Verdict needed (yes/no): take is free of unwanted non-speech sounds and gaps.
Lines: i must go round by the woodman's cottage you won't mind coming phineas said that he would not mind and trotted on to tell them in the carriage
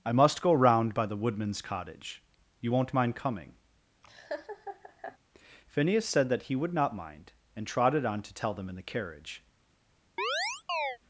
no